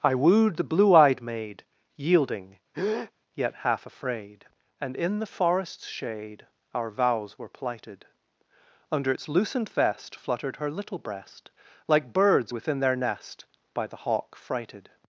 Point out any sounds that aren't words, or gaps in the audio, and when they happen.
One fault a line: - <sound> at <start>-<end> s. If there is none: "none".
- breath at 2.7-3.1 s